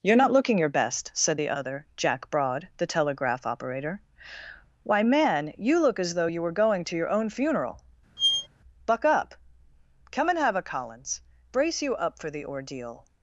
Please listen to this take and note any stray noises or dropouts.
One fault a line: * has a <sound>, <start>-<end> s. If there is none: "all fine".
* has a squeak, 8.2-8.5 s